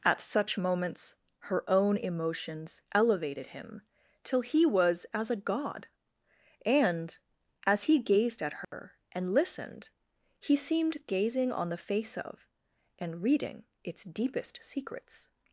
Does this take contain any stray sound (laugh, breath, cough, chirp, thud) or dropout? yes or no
yes